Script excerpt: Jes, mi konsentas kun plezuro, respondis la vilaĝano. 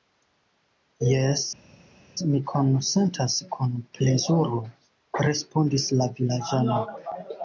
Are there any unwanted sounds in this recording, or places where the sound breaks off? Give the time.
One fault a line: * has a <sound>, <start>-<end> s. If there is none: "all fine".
all fine